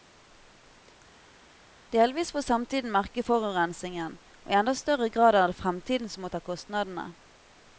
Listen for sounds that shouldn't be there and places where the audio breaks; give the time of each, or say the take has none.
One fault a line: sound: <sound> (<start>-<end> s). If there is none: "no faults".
no faults